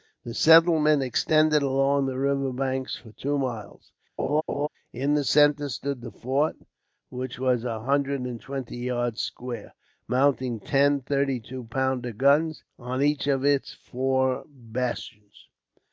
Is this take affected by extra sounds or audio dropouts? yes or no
yes